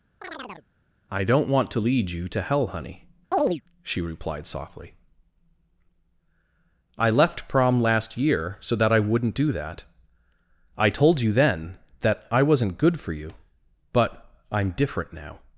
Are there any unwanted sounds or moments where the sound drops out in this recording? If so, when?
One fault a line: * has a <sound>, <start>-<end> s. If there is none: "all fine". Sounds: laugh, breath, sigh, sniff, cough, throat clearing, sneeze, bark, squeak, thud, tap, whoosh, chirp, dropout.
* has a chirp, 0.2-0.7 s
* has a chirp, 3.3-3.6 s